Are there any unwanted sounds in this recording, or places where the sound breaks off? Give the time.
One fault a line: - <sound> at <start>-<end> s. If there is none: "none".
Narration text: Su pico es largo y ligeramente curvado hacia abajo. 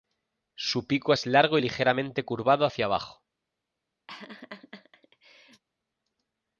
- laugh at 4.1-5.6 s